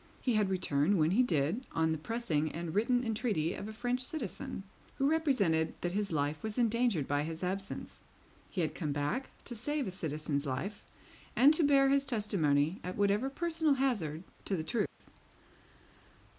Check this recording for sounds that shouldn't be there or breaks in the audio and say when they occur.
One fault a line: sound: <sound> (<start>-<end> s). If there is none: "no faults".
sound: dropout (14.9-15.0 s)